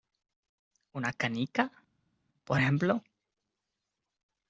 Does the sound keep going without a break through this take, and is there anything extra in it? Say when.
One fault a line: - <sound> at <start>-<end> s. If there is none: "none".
none